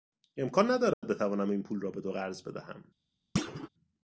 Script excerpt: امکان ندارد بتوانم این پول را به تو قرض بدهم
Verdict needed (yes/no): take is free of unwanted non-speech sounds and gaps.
no